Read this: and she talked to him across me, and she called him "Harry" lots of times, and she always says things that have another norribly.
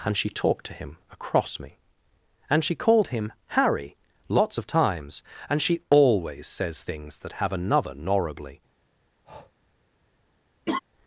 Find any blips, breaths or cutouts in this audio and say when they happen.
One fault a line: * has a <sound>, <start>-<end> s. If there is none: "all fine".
* has a breath, 9.2-9.5 s
* has a laugh, 10.7-10.8 s